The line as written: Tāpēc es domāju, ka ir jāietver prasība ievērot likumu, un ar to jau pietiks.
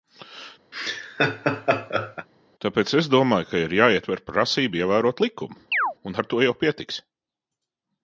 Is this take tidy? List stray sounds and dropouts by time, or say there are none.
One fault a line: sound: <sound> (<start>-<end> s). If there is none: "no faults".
sound: laugh (0.7-2.3 s)
sound: chirp (5.7-5.9 s)